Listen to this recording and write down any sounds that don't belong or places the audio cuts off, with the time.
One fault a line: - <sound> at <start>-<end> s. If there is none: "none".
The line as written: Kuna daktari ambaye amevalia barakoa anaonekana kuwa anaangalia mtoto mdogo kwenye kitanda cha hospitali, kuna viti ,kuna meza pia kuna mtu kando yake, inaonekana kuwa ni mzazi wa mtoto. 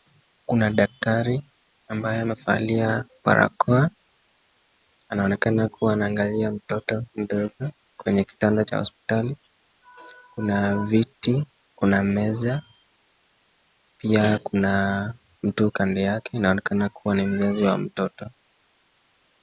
none